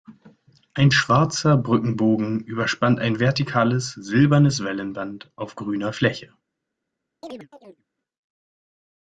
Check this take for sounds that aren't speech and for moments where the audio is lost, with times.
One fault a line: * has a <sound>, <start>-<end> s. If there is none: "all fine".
* has a chirp, 7.2-7.9 s